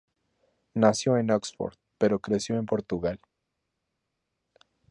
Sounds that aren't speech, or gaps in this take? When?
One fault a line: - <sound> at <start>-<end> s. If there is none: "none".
none